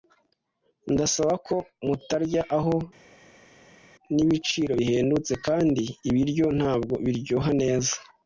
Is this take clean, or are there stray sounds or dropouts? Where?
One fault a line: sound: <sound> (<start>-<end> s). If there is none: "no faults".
no faults